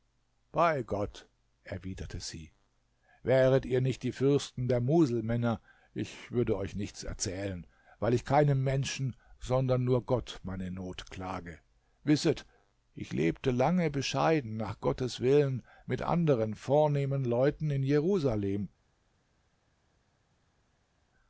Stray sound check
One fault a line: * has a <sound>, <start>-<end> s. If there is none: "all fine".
all fine